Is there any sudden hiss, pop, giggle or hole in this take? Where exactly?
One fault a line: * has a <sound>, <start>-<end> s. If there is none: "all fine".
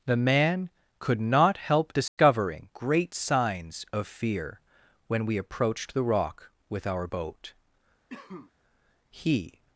* has a dropout, 2.1-2.2 s
* has a cough, 8.1-8.5 s